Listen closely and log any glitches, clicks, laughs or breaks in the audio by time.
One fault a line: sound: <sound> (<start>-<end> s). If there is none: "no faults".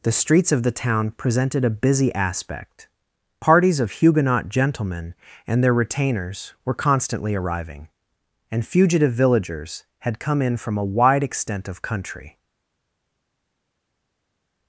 no faults